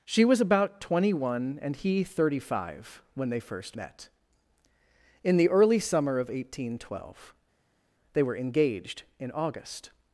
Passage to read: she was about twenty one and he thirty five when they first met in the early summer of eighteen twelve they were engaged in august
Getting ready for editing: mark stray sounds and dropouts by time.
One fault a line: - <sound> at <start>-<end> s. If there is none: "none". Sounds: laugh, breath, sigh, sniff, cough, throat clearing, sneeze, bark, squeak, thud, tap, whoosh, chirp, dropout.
none